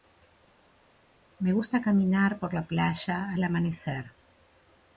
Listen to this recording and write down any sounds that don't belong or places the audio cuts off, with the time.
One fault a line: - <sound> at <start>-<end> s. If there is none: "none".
none